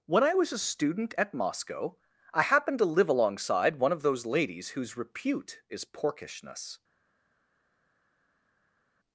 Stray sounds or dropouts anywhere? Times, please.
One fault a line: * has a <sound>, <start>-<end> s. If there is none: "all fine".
all fine